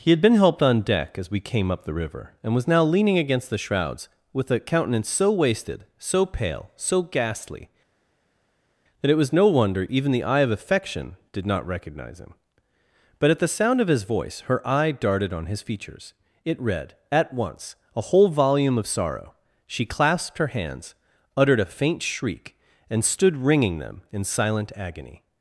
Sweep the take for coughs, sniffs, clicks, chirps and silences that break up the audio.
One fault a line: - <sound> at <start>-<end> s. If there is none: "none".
none